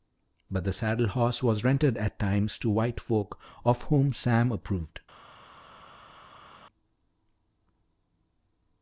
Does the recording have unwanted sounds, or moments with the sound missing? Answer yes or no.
no